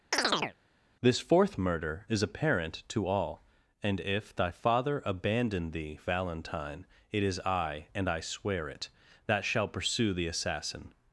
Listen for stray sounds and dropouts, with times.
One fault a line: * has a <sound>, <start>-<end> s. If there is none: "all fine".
* has a chirp, 0.1-0.6 s